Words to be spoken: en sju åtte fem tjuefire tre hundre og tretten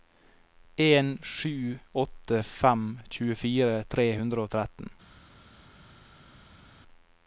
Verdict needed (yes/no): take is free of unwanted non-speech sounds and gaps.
yes